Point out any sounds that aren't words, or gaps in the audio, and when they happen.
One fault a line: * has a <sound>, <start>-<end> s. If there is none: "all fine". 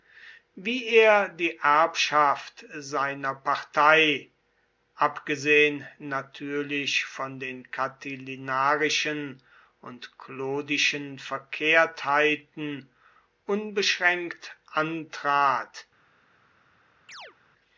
* has a chirp, 17.1-17.4 s